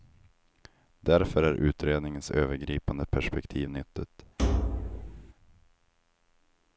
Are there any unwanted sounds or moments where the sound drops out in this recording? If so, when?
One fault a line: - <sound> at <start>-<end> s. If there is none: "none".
- thud at 4.4-5.3 s